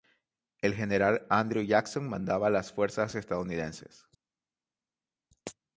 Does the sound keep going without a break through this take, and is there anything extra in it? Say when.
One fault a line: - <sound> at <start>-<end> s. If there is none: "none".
none